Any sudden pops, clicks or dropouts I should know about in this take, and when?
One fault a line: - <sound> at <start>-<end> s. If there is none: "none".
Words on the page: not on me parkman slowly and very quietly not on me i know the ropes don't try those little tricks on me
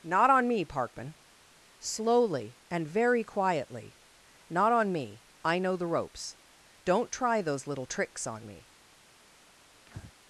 - breath at 9.9-10.1 s